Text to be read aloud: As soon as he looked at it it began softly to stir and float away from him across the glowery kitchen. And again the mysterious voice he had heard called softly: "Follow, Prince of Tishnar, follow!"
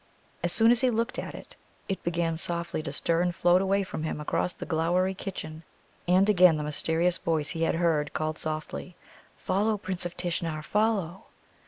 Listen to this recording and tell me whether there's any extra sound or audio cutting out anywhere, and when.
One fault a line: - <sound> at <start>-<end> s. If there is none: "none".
none